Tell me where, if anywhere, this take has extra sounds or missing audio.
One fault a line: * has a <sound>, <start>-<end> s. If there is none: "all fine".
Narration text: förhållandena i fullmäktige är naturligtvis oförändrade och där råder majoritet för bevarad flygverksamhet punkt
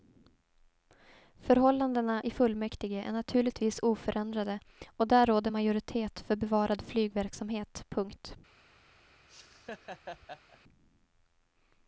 * has a laugh, 9.3-10.6 s